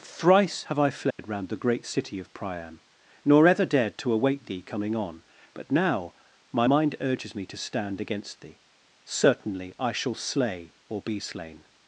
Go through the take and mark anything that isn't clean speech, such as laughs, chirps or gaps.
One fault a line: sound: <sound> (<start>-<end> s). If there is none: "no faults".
sound: dropout (1.1-1.2 s)